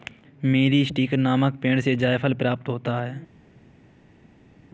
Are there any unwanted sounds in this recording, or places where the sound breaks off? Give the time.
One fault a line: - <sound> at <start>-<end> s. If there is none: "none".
none